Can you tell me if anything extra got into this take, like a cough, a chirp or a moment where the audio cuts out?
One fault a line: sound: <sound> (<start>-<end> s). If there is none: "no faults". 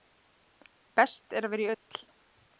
no faults